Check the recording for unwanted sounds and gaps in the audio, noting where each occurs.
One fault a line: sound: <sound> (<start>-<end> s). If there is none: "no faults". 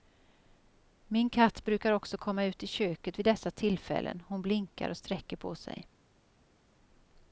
no faults